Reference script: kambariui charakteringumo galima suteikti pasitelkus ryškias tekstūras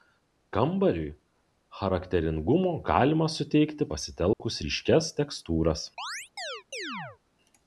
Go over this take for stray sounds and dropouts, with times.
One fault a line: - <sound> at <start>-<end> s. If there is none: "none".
- dropout at 4.3-4.4 s
- chirp at 6.0-7.2 s